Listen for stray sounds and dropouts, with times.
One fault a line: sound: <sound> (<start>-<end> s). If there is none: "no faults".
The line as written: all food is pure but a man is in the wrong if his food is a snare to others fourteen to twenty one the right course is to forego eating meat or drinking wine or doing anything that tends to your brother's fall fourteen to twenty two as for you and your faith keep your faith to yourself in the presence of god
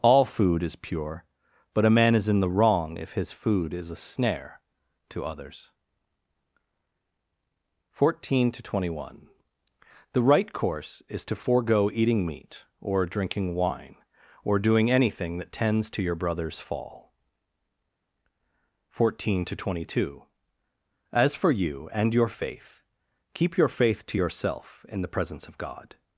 no faults